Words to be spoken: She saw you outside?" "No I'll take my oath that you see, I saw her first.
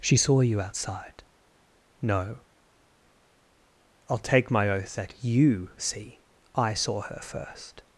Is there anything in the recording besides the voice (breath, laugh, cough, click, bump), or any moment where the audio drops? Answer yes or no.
no